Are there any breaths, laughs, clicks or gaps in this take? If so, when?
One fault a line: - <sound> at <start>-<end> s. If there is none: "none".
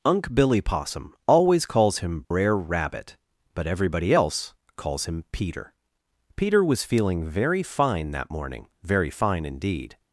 - dropout at 2.2-2.3 s